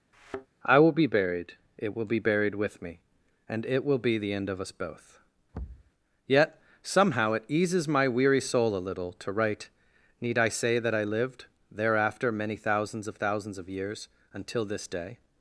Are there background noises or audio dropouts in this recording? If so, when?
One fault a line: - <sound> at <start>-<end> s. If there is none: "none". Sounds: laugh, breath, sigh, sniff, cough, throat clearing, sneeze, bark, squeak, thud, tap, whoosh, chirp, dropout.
- thud at 0.1-0.5 s
- thud at 5.5-5.9 s